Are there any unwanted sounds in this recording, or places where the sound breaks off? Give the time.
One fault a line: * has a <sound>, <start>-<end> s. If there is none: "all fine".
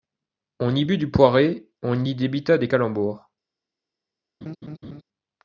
* has a laugh, 4.4-5.0 s